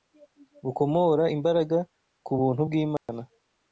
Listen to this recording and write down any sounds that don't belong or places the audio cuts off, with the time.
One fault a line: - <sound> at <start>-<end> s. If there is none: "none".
- dropout at 3.0-3.1 s